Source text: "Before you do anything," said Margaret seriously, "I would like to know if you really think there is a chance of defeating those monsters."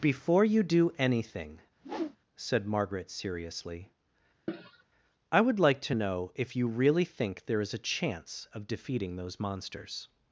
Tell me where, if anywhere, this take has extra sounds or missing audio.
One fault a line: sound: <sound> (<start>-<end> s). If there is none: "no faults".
sound: whoosh (1.8-2.2 s)
sound: cough (4.5-4.8 s)